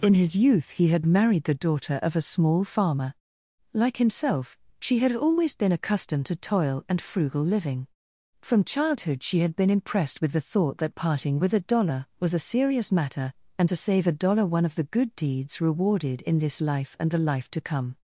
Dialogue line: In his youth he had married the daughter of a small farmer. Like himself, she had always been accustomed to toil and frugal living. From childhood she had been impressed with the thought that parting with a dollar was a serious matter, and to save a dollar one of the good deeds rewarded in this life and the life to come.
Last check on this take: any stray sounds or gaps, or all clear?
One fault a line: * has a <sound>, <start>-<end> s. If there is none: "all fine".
all fine